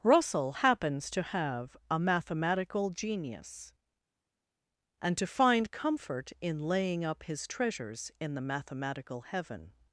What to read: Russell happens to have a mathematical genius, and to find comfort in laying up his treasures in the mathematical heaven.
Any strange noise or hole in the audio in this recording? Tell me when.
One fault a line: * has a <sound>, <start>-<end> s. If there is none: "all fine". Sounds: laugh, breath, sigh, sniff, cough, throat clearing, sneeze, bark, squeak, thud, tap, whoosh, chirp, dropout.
all fine